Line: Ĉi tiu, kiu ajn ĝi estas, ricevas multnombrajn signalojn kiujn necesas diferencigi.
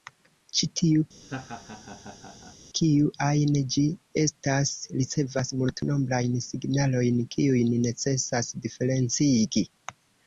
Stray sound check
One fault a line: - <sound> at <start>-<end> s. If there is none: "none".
- laugh at 1.2-2.6 s